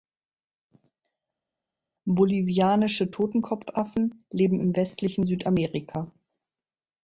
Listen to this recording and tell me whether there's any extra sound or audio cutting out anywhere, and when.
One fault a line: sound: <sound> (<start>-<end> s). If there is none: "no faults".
no faults